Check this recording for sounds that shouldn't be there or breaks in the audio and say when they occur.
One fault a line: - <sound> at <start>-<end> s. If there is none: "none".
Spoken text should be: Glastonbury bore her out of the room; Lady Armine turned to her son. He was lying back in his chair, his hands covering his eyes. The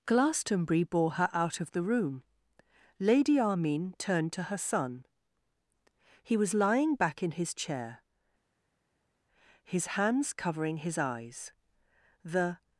none